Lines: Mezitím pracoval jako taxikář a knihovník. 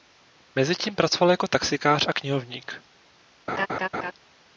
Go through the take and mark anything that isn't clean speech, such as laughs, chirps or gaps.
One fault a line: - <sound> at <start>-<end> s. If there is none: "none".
- laugh at 3.5-4.1 s